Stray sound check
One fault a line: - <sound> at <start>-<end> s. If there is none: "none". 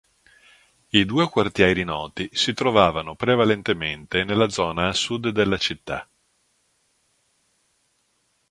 none